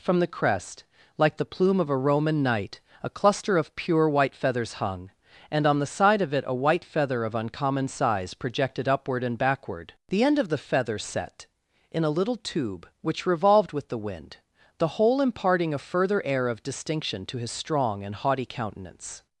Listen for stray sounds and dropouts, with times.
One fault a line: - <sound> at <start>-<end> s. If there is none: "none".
none